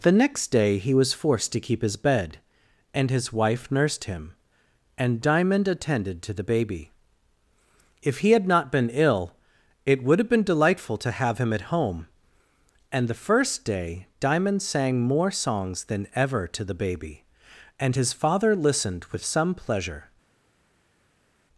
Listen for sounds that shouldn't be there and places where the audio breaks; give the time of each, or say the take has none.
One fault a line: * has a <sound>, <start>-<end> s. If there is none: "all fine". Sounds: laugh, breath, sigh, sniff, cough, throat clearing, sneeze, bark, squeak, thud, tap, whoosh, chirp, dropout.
all fine